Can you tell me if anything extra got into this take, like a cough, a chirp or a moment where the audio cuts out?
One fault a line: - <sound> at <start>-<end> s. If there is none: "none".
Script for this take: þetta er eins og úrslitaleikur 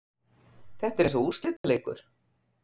- dropout at 1.6-1.6 s